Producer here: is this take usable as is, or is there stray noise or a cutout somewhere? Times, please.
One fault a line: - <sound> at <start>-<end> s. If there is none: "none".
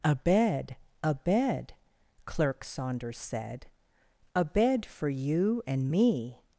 none